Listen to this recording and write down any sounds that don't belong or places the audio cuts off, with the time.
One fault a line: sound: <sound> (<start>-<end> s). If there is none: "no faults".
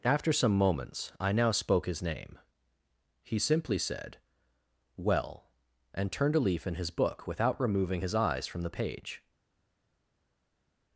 no faults